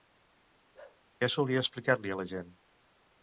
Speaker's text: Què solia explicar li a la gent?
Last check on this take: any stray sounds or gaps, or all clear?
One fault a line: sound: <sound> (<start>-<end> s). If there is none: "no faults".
sound: bark (0.7-1.0 s)